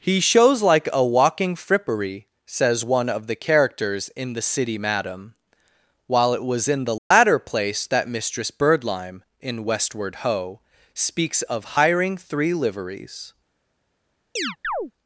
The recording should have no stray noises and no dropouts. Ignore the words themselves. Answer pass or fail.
fail